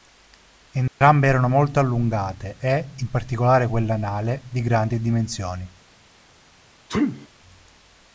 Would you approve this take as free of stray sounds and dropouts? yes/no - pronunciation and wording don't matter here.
no